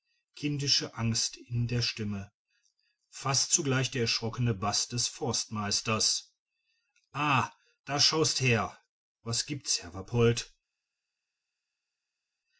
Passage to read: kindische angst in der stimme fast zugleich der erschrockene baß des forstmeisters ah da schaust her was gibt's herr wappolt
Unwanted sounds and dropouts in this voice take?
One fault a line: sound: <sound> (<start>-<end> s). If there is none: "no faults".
no faults